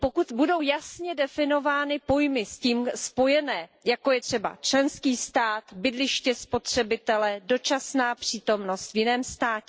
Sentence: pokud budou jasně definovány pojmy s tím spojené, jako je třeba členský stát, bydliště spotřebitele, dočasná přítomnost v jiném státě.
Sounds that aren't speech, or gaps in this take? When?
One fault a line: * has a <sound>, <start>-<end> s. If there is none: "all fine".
all fine